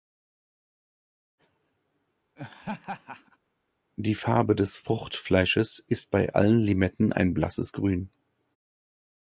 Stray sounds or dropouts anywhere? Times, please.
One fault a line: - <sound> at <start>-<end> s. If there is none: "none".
- laugh at 2.4-3.4 s